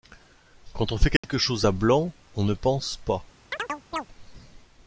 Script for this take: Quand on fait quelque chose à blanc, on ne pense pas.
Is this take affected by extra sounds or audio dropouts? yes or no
yes